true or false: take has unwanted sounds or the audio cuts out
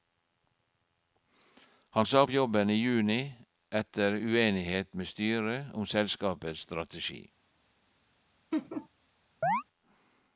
true